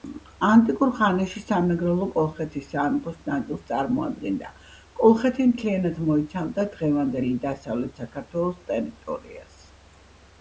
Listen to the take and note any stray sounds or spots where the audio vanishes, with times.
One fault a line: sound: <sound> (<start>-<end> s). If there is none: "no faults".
no faults